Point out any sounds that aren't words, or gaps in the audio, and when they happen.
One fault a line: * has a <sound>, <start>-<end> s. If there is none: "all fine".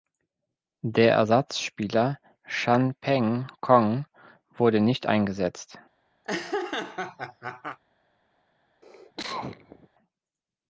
* has a laugh, 6.2-7.8 s
* has a cough, 8.8-9.9 s